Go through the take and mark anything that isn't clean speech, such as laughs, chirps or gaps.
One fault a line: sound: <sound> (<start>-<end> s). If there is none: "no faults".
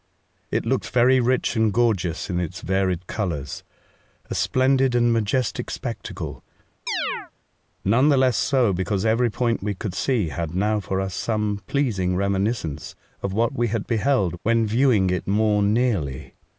sound: chirp (6.9-7.3 s)